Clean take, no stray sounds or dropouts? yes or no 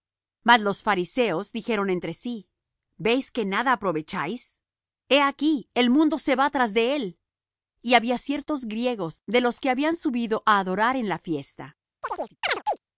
no